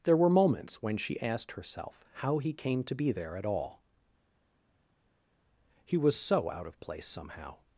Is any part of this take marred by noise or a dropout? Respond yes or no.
no